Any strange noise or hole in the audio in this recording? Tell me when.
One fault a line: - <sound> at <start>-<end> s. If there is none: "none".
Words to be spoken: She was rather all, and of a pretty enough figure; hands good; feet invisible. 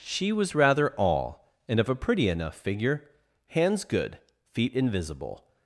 none